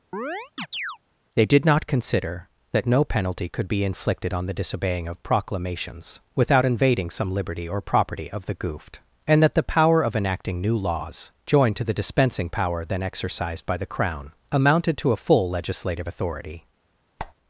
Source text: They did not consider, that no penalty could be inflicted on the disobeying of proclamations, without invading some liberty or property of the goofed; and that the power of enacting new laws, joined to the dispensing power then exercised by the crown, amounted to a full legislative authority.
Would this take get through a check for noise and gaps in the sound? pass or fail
fail